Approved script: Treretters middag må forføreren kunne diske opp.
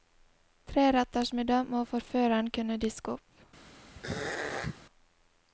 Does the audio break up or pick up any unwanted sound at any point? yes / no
yes